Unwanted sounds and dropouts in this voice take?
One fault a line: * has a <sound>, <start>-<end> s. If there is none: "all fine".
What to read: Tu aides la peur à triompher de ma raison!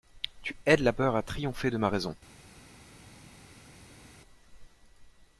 all fine